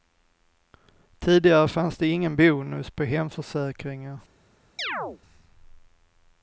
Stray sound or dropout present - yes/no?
yes